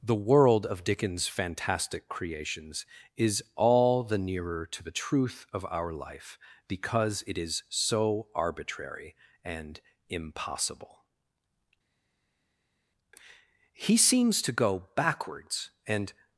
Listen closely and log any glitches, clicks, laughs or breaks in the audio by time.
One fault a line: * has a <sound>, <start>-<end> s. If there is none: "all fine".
all fine